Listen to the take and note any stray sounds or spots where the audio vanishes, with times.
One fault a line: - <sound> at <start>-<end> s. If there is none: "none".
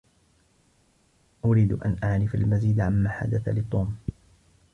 none